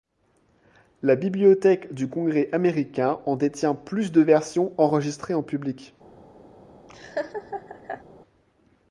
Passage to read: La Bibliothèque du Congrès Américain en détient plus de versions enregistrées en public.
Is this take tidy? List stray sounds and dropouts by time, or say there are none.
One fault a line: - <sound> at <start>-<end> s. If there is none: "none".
- laugh at 6.9-8.0 s